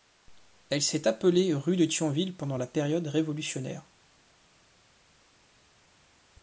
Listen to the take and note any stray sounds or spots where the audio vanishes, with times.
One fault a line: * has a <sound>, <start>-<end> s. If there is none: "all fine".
all fine